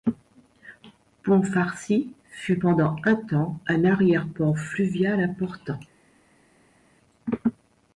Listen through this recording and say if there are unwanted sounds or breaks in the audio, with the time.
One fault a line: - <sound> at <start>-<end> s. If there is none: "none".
none